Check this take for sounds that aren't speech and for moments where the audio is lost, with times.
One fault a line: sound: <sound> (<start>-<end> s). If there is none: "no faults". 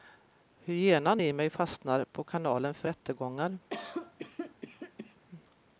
sound: cough (3.7-5.2 s)